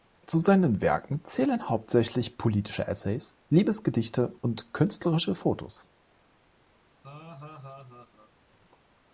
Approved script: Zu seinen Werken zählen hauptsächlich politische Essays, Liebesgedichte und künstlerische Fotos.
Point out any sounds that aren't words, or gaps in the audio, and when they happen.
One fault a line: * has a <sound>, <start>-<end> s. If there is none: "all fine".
* has a laugh, 7.0-8.3 s